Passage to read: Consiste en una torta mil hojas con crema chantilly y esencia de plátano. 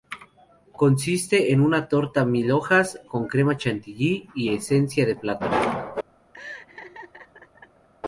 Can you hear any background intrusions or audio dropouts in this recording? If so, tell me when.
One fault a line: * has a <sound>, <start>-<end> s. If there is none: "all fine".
* has a laugh, 6.3-7.9 s